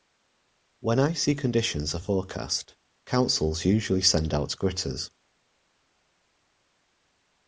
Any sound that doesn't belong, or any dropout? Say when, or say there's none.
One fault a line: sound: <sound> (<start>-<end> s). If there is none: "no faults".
no faults